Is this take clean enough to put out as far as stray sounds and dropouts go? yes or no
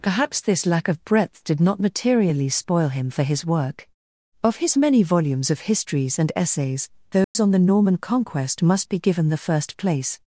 no